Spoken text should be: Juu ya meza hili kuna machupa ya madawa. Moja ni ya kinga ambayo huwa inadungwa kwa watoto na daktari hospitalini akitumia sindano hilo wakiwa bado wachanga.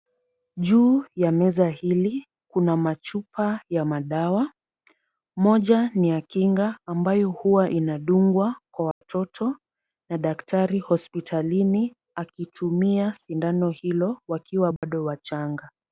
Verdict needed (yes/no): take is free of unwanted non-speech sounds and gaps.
no